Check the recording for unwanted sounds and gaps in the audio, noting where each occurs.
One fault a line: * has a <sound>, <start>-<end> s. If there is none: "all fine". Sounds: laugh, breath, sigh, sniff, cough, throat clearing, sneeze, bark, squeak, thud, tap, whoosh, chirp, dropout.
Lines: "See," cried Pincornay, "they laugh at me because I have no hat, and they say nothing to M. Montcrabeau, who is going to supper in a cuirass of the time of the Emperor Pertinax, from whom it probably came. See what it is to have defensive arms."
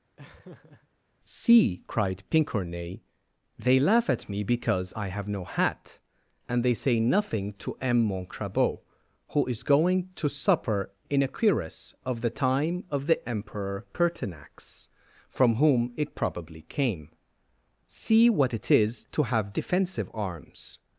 * has a laugh, 0.2-0.9 s